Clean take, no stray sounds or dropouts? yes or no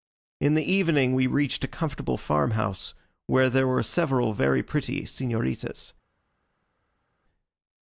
yes